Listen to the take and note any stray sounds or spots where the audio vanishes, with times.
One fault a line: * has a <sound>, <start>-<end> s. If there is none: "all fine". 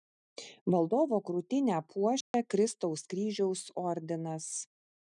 * has a dropout, 2.2-2.3 s